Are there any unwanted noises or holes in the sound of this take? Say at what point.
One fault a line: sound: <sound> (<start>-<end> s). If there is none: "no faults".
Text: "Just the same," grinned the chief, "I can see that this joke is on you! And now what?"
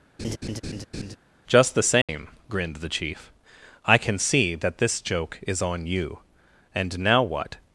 sound: laugh (0.2-1.2 s)
sound: dropout (2.0-2.1 s)